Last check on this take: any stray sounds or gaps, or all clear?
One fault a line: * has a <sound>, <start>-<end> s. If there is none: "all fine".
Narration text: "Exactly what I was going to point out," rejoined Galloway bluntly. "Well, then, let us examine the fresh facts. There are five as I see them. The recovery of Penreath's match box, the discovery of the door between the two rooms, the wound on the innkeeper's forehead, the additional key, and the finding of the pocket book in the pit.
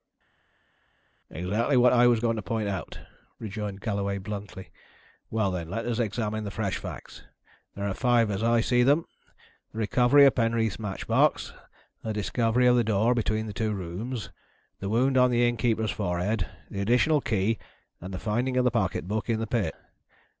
all fine